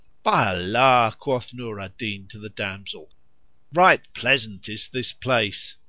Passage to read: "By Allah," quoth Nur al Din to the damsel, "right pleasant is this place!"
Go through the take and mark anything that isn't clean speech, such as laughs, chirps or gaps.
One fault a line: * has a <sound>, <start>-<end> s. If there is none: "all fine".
all fine